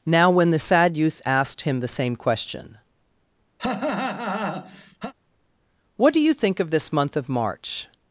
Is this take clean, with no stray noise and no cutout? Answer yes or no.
no